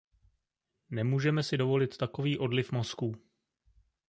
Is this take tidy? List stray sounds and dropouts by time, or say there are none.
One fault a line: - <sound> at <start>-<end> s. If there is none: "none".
none